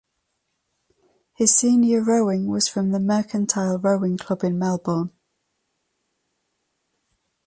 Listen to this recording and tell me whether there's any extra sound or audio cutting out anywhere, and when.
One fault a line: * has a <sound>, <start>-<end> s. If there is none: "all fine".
all fine